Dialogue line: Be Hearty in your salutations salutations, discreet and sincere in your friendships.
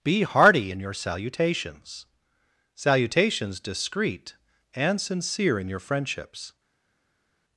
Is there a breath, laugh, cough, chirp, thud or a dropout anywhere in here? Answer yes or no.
no